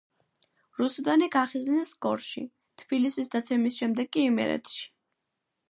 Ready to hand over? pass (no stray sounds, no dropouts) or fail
pass